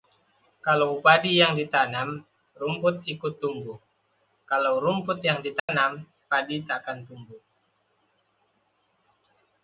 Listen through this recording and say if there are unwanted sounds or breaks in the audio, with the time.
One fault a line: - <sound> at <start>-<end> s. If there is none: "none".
- dropout at 5.6-5.7 s